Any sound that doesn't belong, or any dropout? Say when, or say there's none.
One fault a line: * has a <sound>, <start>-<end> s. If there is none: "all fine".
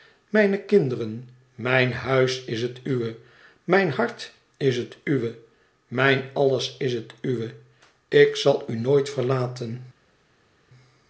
all fine